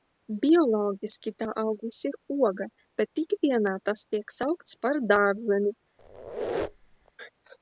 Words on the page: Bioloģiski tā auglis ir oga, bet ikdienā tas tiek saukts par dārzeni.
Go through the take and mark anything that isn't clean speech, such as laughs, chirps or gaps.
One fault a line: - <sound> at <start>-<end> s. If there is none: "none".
- squeak at 6.0-7.1 s